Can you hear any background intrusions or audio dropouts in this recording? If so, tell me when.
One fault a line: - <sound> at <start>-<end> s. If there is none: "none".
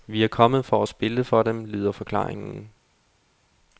none